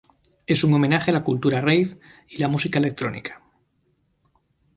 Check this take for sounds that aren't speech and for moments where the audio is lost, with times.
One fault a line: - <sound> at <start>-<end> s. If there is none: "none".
none